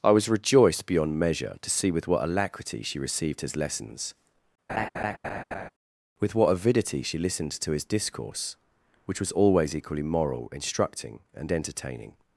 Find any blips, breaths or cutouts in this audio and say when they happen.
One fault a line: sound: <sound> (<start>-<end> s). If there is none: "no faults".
sound: laugh (4.7-5.7 s)